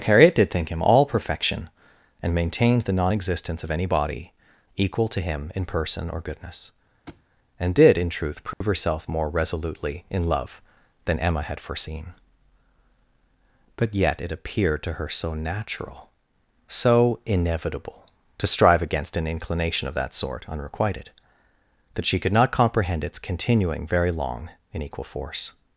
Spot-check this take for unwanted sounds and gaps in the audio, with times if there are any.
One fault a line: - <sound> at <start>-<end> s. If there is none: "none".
- thud at 7.1-7.3 s
- dropout at 8.5-8.6 s